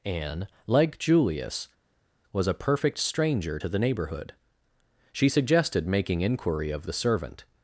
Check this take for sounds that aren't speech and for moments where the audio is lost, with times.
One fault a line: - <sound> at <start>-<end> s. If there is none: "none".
none